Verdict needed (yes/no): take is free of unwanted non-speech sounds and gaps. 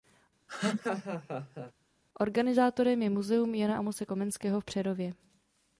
no